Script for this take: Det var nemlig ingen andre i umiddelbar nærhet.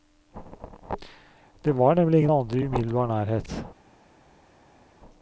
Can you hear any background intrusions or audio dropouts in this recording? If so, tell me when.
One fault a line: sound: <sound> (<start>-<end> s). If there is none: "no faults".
no faults